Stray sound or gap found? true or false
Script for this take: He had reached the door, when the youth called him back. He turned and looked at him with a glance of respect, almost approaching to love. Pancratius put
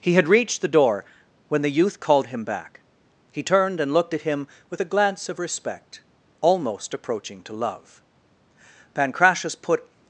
false